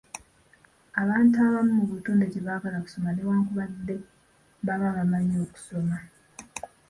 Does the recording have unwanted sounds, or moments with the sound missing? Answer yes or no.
no